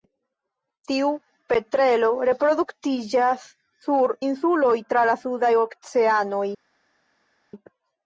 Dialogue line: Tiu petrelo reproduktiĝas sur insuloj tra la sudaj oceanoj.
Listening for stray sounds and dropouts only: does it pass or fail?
pass